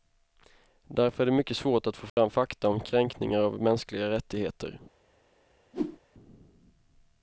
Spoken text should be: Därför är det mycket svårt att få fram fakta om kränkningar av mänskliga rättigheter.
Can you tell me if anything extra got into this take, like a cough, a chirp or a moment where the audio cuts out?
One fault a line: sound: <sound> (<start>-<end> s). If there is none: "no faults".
sound: dropout (2.1-2.2 s)
sound: whoosh (5.7-6.0 s)